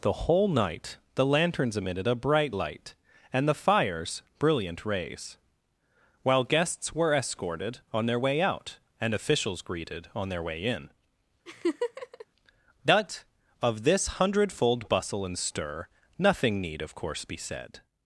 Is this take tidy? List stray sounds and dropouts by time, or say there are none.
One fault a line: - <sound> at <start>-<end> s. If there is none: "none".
- laugh at 11.5-12.3 s